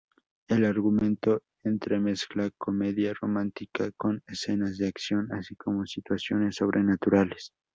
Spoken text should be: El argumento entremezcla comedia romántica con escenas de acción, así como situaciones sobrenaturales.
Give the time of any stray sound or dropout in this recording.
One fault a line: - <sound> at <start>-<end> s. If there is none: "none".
none